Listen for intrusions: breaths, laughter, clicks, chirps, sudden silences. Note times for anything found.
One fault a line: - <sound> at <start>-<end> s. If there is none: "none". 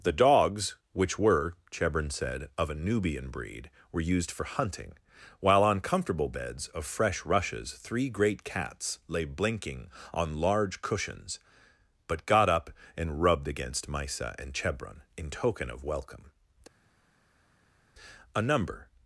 none